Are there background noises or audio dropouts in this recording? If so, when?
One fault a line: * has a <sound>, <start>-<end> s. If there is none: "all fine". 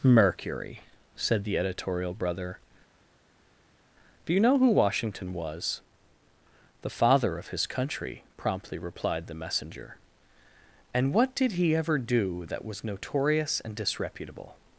all fine